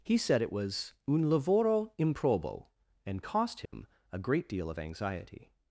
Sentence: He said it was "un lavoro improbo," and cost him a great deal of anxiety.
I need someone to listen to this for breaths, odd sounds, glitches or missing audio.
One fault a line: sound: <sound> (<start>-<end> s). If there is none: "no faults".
sound: dropout (3.7-3.7 s)